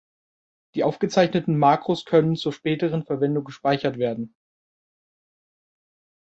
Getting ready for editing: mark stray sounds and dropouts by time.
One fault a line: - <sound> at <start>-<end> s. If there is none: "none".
none